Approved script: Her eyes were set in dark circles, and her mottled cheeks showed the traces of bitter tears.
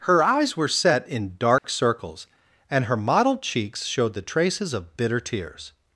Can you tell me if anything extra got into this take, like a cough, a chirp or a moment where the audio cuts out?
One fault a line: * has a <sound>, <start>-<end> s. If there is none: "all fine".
* has a dropout, 1.6-1.6 s